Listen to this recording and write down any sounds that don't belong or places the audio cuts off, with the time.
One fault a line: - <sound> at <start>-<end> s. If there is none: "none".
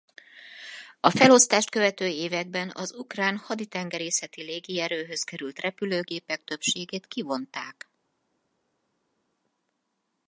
none